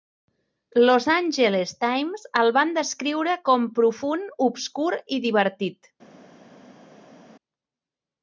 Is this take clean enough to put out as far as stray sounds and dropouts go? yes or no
yes